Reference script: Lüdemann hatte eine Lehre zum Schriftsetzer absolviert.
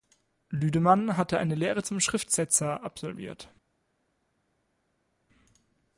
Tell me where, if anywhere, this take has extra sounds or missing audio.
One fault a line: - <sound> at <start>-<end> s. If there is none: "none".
none